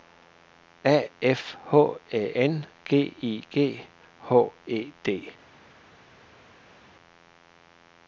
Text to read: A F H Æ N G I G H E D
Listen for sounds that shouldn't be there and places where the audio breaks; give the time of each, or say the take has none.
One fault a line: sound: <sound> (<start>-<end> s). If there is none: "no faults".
no faults